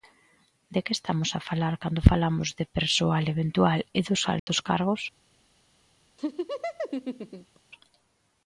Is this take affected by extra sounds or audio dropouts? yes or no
yes